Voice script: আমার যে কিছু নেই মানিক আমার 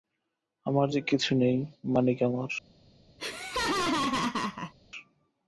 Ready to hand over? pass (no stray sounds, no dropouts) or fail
fail